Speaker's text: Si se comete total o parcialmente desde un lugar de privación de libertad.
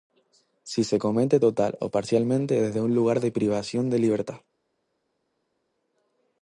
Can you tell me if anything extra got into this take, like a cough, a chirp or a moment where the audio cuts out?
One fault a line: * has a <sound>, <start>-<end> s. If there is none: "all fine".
all fine